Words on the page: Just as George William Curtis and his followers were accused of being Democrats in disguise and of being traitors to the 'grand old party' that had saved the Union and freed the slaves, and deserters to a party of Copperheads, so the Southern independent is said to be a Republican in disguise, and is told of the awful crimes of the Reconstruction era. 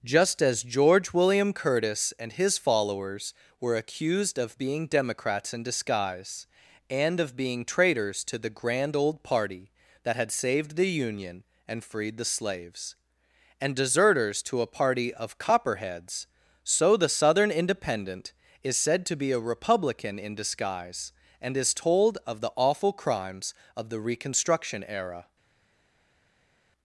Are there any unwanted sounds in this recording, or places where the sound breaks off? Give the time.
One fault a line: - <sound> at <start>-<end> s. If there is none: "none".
none